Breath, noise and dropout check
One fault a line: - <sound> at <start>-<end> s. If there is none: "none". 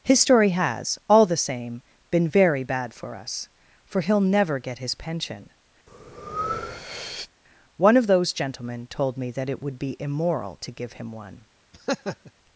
- breath at 5.9-7.3 s
- laugh at 11.7-12.3 s